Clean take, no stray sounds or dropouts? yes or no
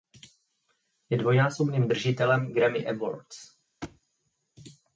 no